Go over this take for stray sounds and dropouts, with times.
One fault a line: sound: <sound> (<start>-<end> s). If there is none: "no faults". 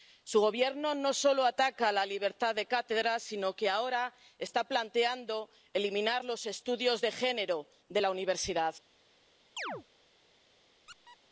sound: chirp (9.6-9.8 s)
sound: squeak (10.9-11.2 s)